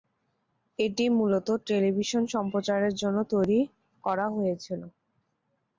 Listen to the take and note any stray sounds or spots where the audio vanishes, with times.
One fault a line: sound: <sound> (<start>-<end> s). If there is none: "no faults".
no faults